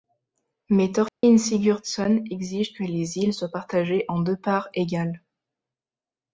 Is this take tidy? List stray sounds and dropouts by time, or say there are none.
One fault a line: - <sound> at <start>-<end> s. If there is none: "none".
- dropout at 1.1-1.2 s